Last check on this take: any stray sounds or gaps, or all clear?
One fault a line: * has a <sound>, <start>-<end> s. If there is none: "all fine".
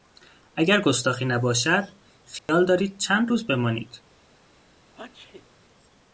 * has a dropout, 2.4-2.5 s
* has a sneeze, 4.9-5.5 s